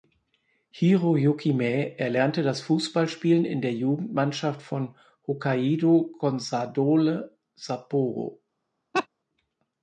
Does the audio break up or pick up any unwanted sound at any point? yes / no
yes